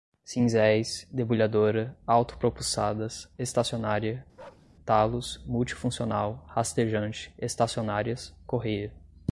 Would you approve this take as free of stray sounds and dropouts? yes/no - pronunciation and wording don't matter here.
no